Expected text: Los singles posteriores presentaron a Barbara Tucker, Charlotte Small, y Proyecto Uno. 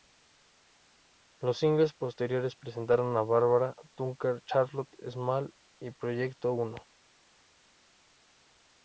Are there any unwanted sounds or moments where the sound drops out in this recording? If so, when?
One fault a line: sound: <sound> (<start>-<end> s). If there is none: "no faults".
no faults